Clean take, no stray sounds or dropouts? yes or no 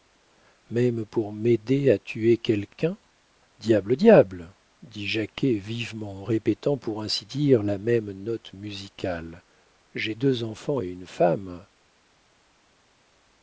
yes